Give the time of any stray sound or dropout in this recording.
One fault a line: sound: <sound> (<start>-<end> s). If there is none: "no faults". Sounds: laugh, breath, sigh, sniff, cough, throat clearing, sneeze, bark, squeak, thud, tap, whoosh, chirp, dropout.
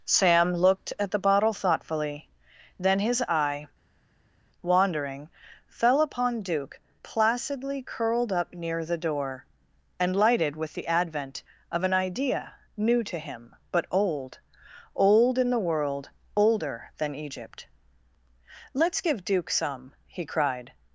no faults